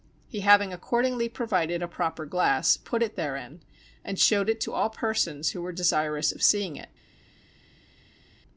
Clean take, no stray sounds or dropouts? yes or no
yes